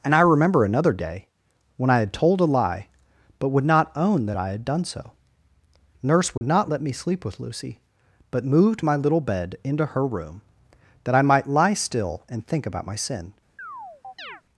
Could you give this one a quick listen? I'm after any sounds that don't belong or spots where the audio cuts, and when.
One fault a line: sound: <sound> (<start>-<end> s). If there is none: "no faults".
sound: dropout (6.4-6.4 s)
sound: chirp (13.6-14.4 s)